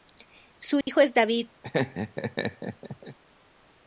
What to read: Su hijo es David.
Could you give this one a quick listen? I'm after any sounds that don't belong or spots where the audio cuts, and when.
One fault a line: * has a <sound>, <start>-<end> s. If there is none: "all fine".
* has a dropout, 0.8-0.9 s
* has a laugh, 1.6-3.2 s